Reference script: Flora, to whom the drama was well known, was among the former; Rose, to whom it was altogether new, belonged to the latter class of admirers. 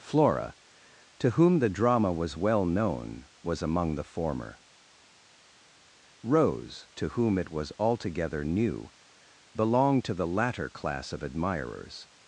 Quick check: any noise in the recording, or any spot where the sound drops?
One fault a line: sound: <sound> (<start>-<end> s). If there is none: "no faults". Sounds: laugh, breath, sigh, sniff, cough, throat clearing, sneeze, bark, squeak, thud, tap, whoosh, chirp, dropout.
no faults